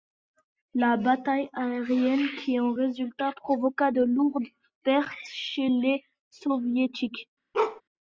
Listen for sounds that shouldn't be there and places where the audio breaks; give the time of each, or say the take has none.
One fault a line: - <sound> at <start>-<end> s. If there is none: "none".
- bark at 7.5-7.8 s